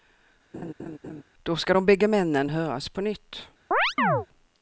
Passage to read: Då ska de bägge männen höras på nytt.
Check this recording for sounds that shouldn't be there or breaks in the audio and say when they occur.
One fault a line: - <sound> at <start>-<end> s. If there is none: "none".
- laugh at 0.5-1.2 s
- chirp at 3.7-4.3 s